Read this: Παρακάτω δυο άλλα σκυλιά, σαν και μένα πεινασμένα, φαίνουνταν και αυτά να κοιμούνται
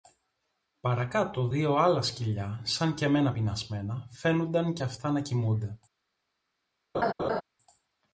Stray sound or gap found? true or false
true